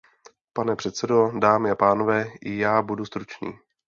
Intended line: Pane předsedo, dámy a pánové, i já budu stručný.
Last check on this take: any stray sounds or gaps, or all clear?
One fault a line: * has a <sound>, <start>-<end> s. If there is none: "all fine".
all fine